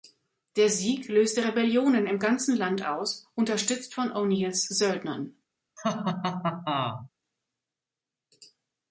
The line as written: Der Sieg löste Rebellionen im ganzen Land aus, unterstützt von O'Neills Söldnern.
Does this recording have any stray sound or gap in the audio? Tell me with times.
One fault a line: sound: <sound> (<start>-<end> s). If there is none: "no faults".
sound: laugh (5.8-7.1 s)